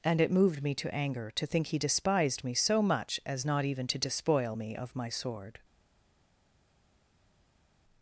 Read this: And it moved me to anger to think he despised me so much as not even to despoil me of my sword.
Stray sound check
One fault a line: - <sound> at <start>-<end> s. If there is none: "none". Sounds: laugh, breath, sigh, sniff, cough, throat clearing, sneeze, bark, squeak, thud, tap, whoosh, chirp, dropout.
none